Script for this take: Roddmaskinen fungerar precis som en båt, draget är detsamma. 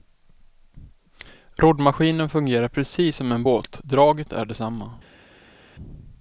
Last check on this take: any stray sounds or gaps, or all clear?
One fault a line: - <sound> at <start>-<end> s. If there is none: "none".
none